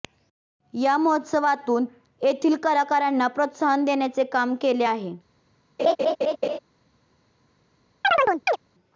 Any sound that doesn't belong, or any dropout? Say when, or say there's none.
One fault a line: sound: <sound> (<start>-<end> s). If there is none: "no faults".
sound: laugh (5.8-6.6 s)
sound: chirp (8.0-8.6 s)